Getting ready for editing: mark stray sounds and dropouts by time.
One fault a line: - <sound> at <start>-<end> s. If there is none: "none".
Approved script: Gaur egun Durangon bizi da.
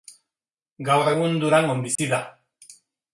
- dropout at 2.0-2.0 s